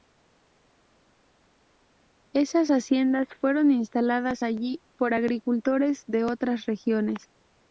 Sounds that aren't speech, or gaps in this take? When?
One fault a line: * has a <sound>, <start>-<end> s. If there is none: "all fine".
all fine